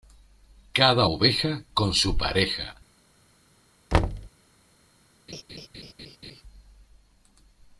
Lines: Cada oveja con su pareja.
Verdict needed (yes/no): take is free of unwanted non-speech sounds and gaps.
no